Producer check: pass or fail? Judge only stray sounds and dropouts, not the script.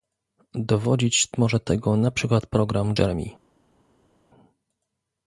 pass